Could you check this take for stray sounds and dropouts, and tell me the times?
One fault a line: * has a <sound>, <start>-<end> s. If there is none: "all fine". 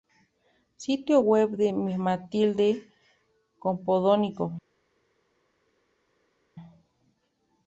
all fine